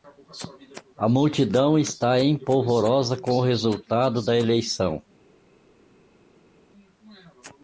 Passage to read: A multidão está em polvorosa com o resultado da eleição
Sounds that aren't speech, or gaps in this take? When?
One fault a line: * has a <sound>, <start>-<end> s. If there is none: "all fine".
all fine